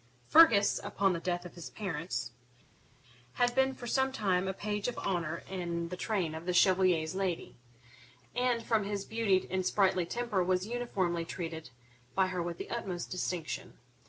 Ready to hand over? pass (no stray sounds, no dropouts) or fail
pass